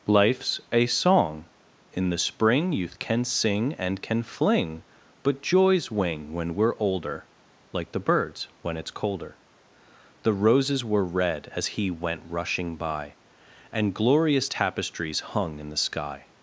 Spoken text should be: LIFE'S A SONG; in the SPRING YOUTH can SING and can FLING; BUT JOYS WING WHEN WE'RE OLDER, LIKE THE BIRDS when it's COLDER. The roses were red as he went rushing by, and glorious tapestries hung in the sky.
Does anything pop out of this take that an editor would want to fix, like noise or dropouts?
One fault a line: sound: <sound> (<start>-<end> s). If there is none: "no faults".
no faults